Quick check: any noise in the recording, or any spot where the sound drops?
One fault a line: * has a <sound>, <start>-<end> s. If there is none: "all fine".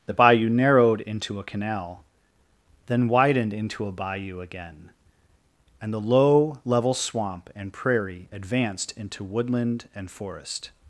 all fine